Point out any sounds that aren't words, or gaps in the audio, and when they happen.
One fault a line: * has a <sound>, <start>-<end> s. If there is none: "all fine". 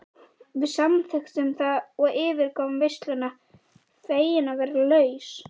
all fine